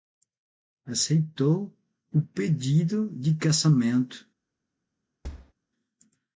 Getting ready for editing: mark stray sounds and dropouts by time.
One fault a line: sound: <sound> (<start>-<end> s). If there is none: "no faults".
sound: thud (5.2-5.5 s)